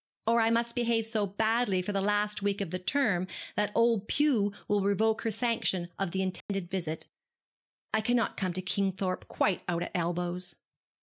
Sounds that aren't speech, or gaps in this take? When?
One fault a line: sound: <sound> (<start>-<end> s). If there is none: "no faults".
sound: dropout (6.4-6.5 s)